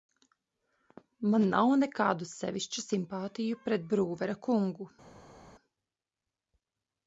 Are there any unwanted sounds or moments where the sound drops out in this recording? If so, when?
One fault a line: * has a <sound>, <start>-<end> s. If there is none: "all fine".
all fine